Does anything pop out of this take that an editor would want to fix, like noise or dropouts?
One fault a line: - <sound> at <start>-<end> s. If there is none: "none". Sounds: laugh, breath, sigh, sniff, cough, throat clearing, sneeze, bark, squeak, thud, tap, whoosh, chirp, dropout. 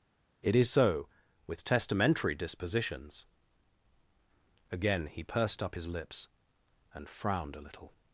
none